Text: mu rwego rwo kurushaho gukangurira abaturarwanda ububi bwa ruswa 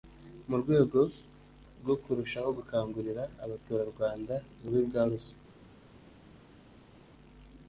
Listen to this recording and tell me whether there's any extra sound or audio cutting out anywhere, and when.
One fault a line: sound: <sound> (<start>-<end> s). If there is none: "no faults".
no faults